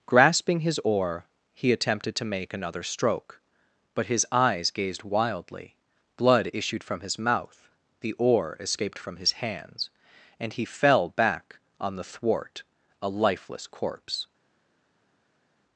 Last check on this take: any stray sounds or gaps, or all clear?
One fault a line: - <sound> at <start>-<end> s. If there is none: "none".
none